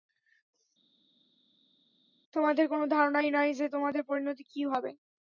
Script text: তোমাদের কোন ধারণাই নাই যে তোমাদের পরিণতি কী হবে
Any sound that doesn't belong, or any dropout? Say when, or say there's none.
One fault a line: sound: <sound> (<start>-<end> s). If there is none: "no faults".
no faults